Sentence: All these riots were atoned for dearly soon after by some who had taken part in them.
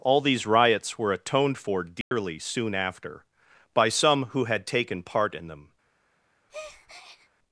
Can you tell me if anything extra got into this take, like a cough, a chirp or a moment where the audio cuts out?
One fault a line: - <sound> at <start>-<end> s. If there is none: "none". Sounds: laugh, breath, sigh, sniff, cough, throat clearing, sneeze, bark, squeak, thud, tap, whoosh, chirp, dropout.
- dropout at 2.0-2.1 s
- breath at 6.5-7.3 s